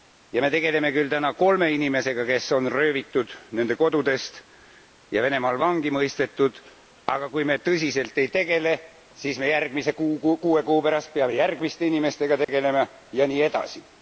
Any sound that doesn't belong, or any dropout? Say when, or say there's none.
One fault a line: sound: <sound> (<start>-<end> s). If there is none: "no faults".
sound: dropout (12.4-12.5 s)